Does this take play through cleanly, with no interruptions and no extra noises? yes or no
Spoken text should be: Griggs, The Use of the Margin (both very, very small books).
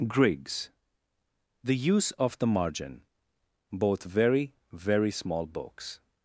yes